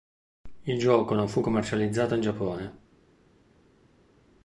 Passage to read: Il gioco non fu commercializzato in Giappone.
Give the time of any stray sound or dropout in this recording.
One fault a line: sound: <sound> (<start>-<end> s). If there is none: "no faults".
no faults